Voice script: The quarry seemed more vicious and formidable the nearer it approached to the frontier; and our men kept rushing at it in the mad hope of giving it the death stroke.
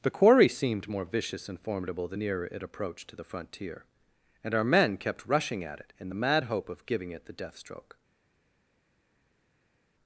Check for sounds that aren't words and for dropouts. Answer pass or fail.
pass